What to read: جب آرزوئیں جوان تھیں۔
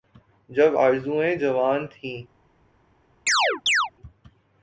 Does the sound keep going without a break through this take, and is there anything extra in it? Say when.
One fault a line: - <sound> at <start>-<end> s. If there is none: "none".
- chirp at 3.3-3.9 s